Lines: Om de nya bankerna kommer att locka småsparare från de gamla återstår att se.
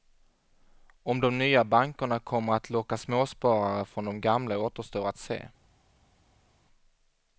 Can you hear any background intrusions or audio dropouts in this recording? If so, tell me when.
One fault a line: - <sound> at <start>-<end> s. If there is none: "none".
none